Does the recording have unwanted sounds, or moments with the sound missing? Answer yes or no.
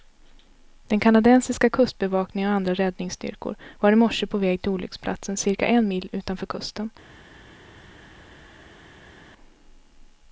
no